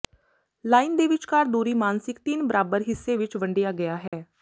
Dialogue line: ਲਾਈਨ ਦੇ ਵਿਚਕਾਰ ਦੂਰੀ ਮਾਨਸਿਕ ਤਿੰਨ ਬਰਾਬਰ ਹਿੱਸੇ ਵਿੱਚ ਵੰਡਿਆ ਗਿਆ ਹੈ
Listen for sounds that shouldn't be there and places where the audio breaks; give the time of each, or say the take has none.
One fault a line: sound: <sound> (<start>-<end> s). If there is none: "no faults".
sound: dropout (4.1-4.1 s)